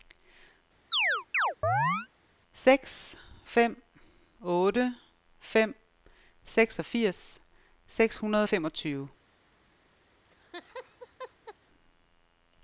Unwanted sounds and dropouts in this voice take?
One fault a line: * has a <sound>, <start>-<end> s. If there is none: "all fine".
* has a chirp, 0.9-2.1 s
* has a laugh, 10.2-11.6 s